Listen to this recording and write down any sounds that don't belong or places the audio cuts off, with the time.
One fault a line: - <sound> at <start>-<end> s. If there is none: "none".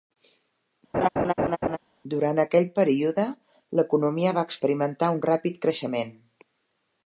- laugh at 0.9-1.8 s